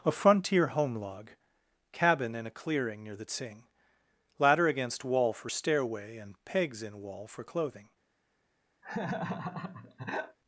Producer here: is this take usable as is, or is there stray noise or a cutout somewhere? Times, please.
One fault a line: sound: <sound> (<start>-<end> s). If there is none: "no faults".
sound: laugh (8.8-10.4 s)